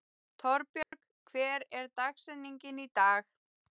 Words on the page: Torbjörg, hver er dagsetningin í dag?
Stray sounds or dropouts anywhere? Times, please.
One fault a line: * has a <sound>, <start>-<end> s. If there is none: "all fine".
* has a dropout, 0.8-0.9 s